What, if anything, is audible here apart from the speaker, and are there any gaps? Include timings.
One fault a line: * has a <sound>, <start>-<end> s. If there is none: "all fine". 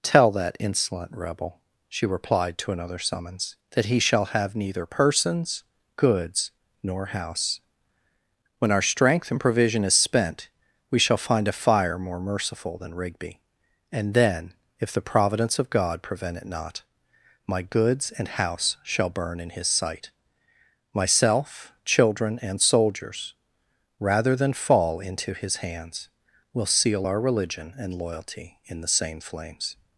all fine